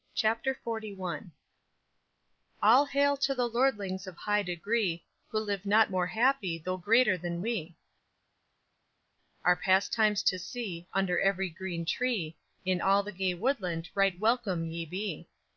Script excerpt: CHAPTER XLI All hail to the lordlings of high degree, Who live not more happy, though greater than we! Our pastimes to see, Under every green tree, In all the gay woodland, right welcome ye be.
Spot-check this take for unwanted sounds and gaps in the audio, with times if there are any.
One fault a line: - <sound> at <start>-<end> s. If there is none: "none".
none